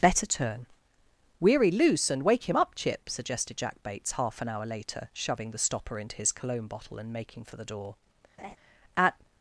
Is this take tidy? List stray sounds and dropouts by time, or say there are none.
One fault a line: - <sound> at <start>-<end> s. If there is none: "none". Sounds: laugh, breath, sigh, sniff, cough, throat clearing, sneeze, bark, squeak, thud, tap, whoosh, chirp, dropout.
- laugh at 8.4-8.6 s